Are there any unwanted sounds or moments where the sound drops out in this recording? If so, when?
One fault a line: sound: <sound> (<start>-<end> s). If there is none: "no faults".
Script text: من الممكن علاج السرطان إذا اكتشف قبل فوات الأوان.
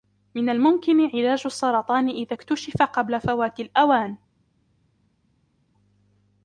no faults